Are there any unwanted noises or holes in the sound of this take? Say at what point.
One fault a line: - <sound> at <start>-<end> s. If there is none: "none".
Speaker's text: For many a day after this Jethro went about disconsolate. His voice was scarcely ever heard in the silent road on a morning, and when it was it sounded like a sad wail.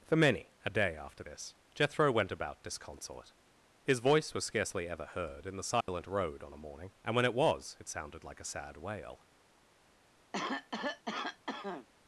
- dropout at 5.8-5.9 s
- cough at 10.3-11.9 s